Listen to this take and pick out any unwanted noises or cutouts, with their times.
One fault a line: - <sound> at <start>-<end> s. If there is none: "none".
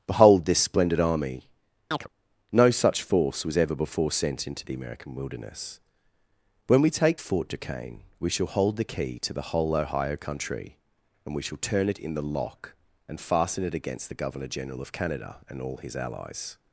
- chirp at 1.9-2.1 s